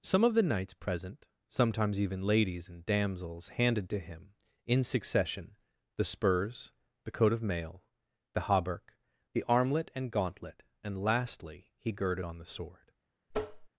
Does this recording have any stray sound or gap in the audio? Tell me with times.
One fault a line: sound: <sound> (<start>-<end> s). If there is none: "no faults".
sound: tap (13.3-13.7 s)